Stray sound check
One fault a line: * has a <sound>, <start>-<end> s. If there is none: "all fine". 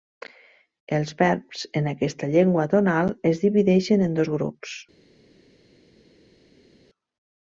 all fine